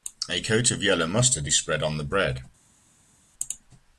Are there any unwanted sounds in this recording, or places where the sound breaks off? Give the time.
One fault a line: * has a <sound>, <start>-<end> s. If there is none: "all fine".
all fine